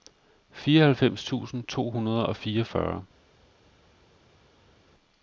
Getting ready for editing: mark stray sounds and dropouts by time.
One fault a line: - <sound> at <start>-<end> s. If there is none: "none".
none